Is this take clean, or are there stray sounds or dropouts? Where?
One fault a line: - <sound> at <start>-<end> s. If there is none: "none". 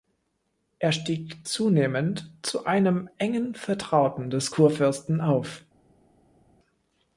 none